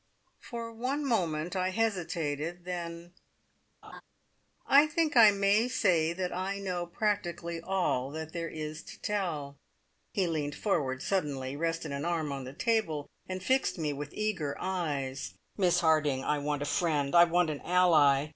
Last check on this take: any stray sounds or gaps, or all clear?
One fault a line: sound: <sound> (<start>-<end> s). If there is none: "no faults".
sound: laugh (3.8-4.0 s)